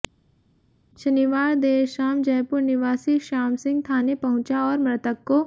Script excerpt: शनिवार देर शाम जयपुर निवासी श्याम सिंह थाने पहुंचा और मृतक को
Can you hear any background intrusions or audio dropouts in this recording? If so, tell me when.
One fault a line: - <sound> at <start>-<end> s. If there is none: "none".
none